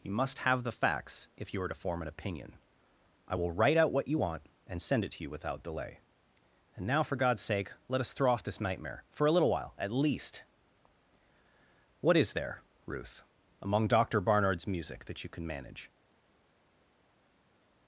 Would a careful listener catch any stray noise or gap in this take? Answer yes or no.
no